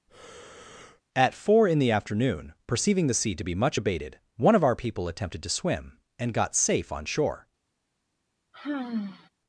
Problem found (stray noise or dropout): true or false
true